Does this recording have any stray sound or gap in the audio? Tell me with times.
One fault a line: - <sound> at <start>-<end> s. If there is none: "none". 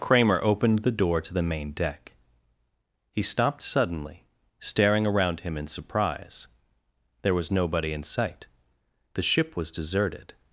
none